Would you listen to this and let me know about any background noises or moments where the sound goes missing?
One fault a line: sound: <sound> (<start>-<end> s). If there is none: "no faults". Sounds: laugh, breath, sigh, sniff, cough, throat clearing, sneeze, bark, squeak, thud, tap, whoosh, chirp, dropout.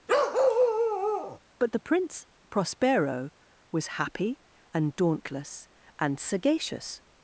sound: bark (0.1-1.4 s)